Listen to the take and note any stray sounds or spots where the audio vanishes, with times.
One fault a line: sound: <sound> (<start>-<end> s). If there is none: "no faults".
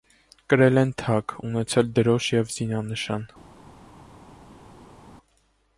no faults